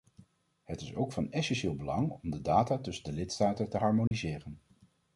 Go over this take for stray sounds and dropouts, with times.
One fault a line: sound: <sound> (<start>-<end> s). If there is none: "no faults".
sound: dropout (4.1-4.1 s)